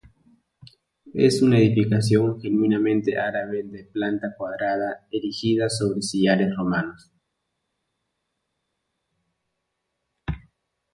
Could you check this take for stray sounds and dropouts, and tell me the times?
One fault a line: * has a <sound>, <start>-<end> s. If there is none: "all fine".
all fine